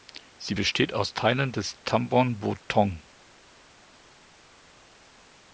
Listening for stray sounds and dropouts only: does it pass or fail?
pass